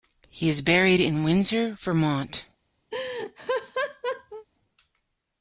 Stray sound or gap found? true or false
true